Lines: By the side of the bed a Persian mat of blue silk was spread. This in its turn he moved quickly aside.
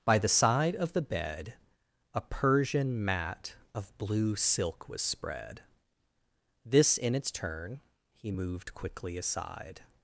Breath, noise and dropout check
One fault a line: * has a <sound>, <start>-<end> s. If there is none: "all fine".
all fine